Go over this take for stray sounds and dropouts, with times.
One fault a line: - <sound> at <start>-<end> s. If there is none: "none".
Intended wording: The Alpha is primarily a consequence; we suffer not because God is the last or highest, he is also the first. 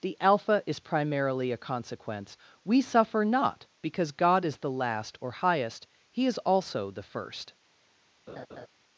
- laugh at 8.3-8.7 s